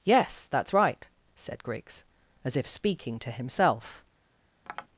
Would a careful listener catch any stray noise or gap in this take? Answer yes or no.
yes